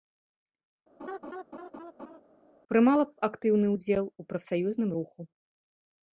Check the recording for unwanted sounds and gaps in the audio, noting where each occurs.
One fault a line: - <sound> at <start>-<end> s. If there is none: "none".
- laugh at 1.0-2.2 s